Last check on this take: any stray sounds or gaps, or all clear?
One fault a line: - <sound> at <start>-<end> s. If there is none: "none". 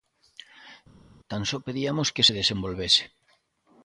none